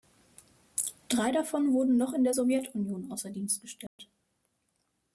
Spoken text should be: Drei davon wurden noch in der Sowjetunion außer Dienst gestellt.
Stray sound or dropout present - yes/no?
yes